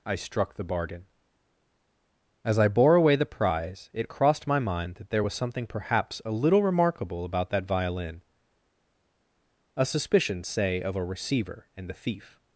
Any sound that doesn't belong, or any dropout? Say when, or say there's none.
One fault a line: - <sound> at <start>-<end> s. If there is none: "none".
none